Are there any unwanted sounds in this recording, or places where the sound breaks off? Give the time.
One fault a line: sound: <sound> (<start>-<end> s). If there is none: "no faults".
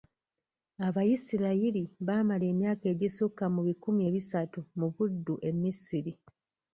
no faults